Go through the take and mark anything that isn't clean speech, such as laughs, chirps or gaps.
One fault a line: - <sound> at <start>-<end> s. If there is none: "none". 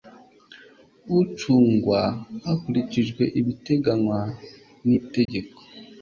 - dropout at 5.3-5.3 s